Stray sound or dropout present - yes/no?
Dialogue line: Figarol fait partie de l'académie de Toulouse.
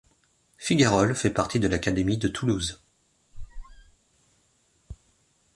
yes